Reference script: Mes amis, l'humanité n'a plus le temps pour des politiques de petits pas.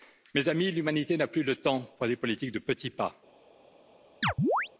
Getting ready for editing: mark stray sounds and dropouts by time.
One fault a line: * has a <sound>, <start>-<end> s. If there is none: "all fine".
* has a chirp, 4.2-4.7 s